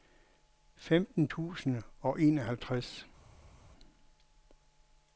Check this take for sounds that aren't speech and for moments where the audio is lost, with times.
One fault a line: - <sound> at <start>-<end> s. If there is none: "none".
none